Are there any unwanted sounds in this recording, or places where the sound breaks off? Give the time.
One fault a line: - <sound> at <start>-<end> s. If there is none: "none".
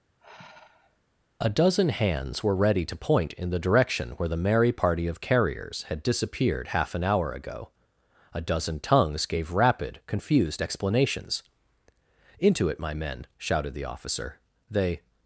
- sigh at 0.2-1.0 s